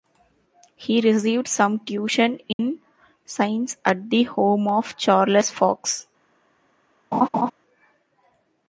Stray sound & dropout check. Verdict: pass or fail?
fail